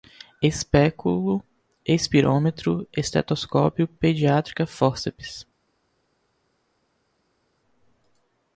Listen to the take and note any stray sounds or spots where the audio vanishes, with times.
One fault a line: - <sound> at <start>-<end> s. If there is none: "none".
none